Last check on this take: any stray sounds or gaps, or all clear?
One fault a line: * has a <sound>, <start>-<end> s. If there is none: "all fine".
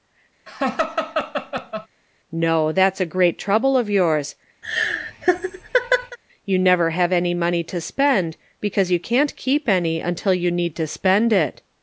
* has a laugh, 0.5-1.9 s
* has a laugh, 4.6-6.2 s